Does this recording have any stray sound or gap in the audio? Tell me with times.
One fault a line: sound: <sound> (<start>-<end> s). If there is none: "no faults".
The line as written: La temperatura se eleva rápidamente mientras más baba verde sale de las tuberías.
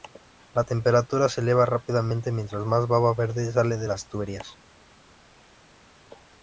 no faults